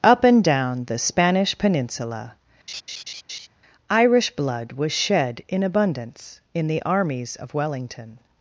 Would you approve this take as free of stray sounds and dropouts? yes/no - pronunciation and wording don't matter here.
no